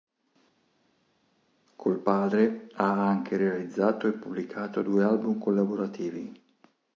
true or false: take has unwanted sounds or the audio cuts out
false